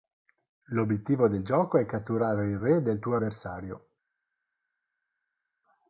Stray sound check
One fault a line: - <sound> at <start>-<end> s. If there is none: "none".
none